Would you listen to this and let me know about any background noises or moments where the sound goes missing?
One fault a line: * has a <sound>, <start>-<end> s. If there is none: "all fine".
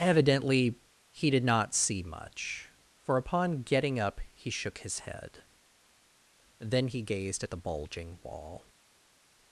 all fine